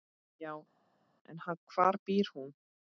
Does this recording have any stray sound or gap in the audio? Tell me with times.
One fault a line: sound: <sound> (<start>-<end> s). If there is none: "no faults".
no faults